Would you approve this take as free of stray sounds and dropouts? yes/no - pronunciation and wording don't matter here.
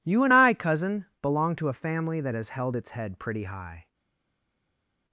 yes